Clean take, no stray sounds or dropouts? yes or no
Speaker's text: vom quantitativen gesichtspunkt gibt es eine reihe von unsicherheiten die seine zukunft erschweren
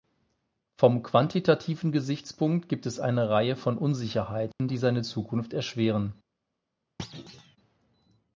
no